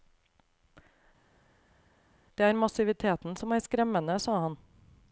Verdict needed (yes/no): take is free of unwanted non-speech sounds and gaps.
yes